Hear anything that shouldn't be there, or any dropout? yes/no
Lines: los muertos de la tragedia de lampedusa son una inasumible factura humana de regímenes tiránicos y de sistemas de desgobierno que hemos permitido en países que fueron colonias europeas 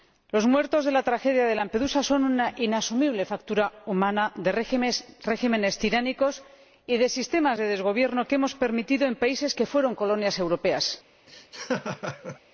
yes